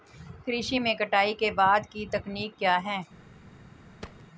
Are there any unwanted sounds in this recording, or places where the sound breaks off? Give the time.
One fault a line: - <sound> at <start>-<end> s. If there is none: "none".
- thud at 4.0-4.2 s